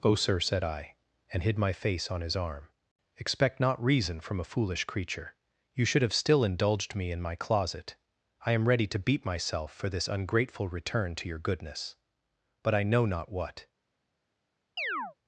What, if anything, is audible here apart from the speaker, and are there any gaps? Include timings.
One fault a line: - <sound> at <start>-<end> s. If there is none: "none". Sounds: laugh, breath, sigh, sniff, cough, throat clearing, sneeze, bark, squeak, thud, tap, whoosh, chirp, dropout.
- chirp at 14.8-15.1 s